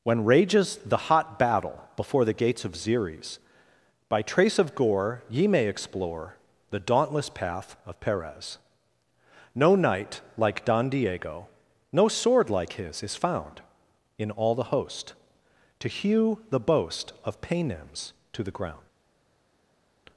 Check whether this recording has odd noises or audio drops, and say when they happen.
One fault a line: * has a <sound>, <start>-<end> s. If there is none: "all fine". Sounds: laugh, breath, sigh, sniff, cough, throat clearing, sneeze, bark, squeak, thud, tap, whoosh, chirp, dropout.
all fine